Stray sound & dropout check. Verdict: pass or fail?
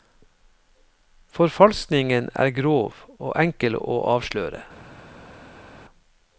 pass